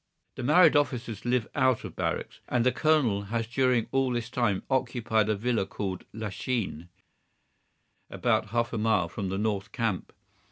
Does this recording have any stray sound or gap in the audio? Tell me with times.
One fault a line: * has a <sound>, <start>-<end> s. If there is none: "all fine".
all fine